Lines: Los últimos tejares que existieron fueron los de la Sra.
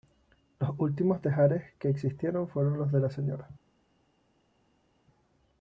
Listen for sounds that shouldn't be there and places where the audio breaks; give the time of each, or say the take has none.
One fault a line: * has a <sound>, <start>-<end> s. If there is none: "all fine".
all fine